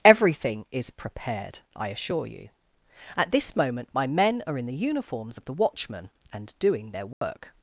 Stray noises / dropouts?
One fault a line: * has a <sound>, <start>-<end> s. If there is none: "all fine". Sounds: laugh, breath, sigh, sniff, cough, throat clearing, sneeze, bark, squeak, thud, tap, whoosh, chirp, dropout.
* has a dropout, 7.1-7.2 s